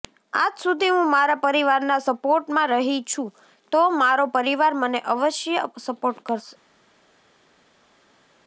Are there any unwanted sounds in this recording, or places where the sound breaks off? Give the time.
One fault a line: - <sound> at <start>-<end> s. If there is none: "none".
none